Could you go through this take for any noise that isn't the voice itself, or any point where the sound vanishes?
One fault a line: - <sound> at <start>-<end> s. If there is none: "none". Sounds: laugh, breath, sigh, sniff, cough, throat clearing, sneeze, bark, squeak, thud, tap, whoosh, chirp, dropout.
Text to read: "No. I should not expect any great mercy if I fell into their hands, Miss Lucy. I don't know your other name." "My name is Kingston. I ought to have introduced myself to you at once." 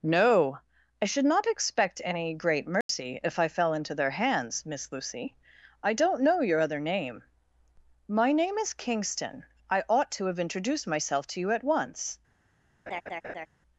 - dropout at 2.8-2.9 s
- laugh at 12.9-13.5 s